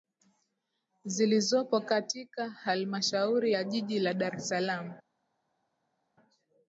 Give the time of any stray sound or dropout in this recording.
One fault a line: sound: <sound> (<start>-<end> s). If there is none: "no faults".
no faults